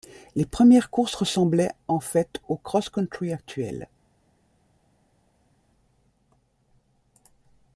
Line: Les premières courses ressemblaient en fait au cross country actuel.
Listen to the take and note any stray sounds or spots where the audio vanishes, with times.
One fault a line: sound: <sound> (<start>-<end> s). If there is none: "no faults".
no faults